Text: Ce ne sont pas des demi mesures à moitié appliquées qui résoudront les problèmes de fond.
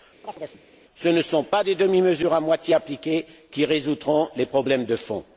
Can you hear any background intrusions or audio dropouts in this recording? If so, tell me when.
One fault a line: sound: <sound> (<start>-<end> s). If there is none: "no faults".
sound: chirp (0.2-0.7 s)